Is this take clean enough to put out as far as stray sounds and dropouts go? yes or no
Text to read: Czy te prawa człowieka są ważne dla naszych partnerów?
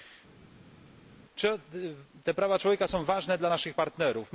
yes